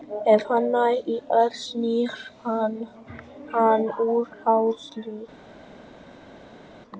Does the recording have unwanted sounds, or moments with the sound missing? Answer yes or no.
no